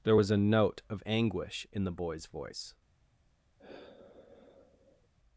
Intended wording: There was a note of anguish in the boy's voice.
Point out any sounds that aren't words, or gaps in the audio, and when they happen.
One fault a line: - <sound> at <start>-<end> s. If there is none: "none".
- sigh at 3.6-5.1 s